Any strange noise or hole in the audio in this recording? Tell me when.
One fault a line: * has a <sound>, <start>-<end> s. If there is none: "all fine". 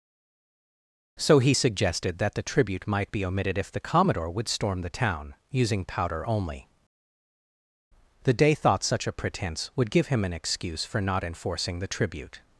all fine